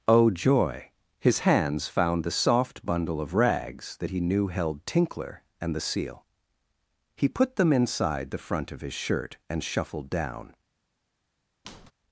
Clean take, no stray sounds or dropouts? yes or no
no